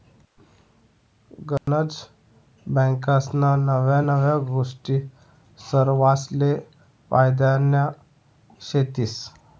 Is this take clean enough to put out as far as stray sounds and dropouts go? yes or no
no